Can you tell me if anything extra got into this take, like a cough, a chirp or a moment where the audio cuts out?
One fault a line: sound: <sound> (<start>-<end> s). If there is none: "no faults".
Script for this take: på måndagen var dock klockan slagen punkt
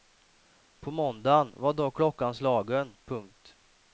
no faults